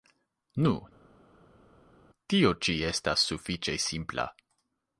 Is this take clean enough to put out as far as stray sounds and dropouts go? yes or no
yes